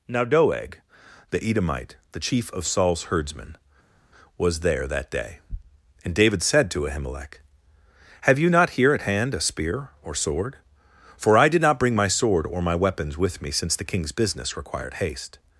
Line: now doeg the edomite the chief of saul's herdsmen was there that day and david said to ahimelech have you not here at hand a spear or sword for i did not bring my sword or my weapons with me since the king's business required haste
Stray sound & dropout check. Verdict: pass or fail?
pass